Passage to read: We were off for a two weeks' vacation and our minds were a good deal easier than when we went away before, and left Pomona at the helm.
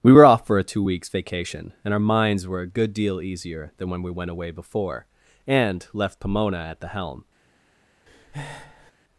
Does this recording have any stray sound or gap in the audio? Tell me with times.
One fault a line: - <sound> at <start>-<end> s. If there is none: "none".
- breath at 8.1-8.9 s